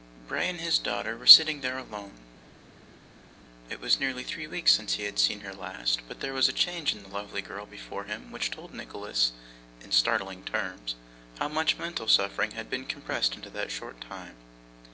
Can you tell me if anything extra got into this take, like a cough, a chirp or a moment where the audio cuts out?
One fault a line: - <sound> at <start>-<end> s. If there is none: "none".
none